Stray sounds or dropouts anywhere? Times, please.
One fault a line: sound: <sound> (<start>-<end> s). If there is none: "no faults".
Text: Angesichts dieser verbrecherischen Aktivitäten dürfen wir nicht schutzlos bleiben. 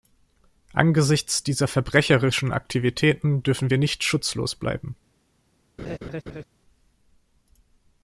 sound: laugh (5.8-6.4 s)